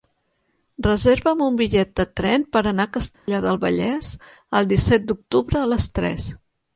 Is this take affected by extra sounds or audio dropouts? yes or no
yes